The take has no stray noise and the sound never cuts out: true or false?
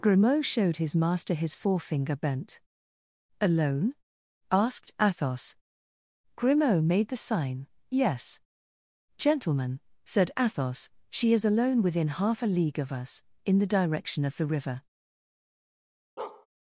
false